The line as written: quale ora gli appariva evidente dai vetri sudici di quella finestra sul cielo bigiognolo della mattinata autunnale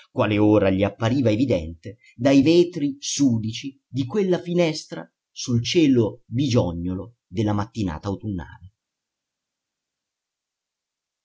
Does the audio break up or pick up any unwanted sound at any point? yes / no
no